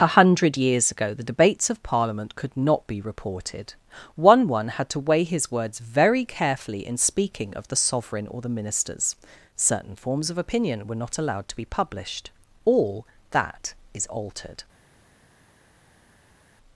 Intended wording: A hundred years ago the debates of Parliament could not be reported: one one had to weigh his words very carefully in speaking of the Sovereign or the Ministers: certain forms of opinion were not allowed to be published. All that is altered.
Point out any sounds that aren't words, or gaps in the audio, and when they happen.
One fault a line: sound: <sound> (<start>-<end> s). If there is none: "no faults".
no faults